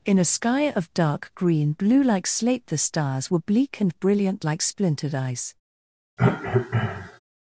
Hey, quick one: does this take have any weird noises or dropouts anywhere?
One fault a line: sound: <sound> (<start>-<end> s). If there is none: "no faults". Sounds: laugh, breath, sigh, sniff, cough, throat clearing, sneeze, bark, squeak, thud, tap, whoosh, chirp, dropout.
sound: cough (6.2-7.2 s)